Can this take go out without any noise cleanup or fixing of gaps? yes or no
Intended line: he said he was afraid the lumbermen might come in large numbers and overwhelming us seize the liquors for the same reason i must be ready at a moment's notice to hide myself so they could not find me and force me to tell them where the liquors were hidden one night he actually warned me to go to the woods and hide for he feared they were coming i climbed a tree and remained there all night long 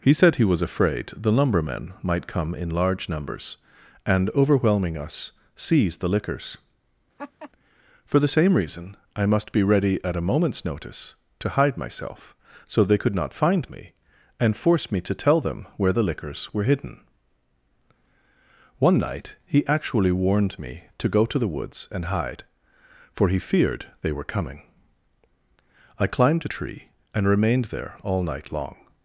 no